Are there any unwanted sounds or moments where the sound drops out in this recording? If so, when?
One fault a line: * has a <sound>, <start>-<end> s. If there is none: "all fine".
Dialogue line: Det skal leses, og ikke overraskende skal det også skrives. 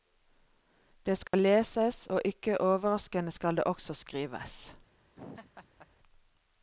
* has a dropout, 1.3-1.3 s
* has a laugh, 5.2-5.9 s